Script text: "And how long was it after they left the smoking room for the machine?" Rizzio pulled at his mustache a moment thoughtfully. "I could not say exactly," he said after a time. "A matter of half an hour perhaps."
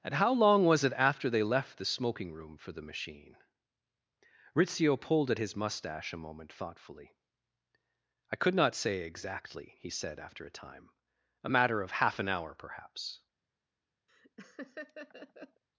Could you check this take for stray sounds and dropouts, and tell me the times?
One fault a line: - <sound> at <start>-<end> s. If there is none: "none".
- laugh at 14.1-15.6 s